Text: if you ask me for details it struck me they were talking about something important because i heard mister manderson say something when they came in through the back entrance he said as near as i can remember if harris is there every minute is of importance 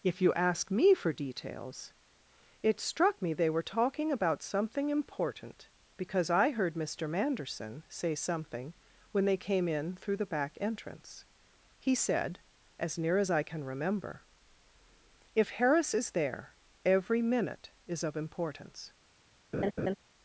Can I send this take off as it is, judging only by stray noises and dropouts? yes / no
no